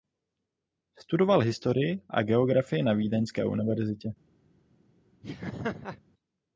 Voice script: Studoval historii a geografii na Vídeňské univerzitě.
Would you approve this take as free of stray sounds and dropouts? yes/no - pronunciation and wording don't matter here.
no